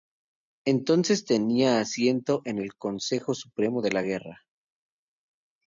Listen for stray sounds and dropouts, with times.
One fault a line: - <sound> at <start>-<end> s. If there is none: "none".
none